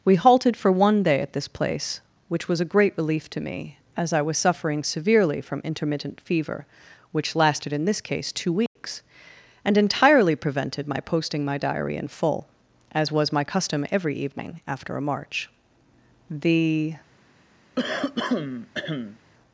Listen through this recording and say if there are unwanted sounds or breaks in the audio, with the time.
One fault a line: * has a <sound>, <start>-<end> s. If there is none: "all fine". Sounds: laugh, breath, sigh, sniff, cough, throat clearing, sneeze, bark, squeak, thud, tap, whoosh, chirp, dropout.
* has a dropout, 8.7-8.8 s
* has a throat clearing, 17.8-19.2 s